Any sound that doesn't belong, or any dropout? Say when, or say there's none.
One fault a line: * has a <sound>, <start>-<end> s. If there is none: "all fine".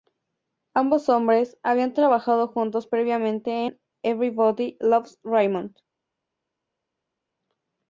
all fine